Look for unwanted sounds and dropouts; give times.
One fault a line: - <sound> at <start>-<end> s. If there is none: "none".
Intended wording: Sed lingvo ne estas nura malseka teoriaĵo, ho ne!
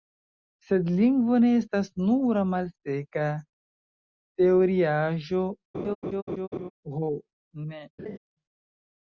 - laugh at 5.7-6.7 s
- laugh at 8.0-8.2 s